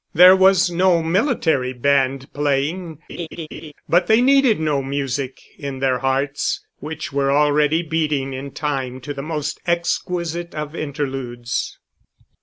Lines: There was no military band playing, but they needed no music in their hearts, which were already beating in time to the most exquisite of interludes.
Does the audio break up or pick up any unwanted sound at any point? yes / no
yes